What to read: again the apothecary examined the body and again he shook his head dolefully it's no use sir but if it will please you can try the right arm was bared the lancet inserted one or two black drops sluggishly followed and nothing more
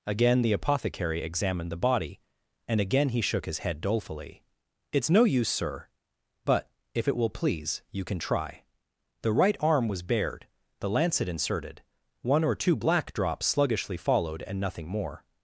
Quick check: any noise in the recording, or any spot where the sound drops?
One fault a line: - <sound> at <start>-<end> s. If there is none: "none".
none